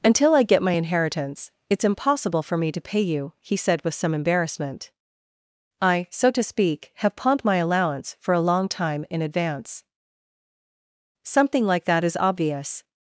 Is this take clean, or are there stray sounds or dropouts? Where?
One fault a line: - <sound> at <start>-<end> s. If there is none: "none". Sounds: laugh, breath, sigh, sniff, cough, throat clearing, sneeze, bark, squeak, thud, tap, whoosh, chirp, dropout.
none